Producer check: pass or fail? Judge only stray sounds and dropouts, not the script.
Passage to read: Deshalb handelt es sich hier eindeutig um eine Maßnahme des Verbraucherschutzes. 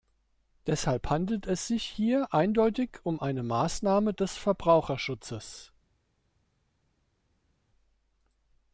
pass